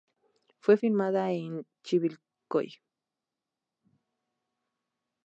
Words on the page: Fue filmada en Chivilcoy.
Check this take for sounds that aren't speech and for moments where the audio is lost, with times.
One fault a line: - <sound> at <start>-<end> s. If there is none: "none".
none